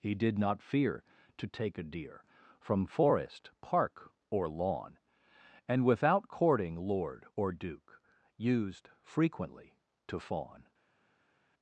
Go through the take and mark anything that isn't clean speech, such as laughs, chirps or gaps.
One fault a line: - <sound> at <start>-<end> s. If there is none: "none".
none